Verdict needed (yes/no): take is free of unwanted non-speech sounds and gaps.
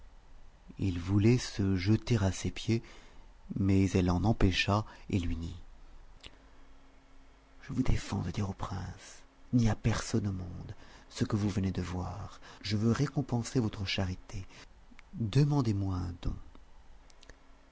yes